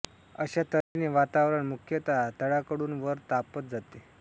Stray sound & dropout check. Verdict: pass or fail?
fail